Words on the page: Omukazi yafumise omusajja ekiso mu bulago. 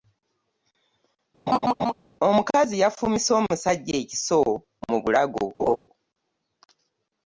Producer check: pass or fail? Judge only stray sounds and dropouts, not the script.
fail